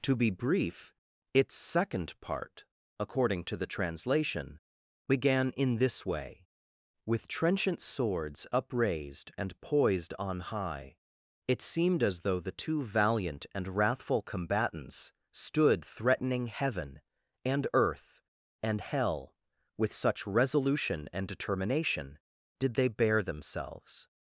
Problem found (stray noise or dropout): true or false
false